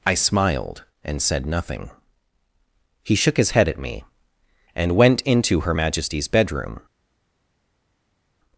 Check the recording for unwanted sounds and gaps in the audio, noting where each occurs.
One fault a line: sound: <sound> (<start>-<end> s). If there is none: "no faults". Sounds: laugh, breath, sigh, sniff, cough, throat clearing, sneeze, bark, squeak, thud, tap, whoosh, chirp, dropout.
no faults